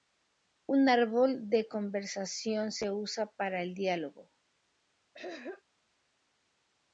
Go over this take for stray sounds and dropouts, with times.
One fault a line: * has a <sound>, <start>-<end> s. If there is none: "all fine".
* has a throat clearing, 5.1-5.6 s